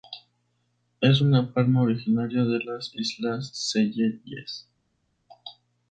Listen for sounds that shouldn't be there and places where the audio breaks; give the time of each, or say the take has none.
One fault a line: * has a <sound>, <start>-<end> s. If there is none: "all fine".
all fine